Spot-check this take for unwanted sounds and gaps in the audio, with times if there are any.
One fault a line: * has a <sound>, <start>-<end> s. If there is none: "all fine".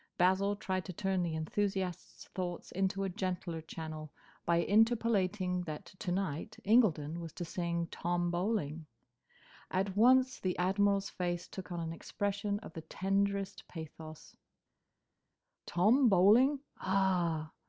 all fine